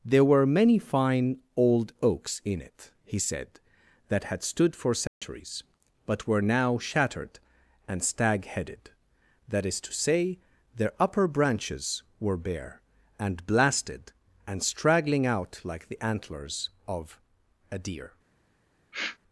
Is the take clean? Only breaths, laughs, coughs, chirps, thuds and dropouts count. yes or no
no